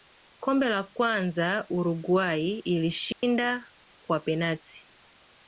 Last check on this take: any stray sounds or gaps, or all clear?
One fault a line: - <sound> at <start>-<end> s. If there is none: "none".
- dropout at 3.1-3.2 s